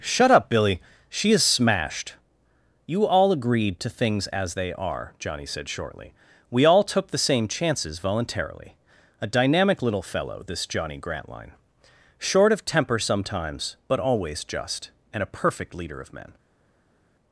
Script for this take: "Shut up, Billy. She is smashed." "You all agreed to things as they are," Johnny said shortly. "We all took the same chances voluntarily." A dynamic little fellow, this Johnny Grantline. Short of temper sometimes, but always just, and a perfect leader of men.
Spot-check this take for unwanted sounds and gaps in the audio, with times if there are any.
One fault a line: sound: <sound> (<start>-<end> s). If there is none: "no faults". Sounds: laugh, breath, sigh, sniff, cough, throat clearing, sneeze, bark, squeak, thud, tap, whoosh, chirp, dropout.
no faults